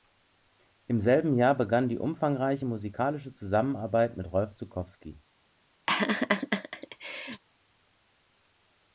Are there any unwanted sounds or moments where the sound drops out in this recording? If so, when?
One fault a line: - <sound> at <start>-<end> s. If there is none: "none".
- laugh at 5.9-7.4 s